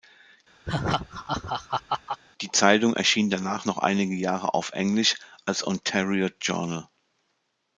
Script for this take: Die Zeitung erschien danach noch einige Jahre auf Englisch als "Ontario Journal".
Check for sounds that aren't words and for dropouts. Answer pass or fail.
fail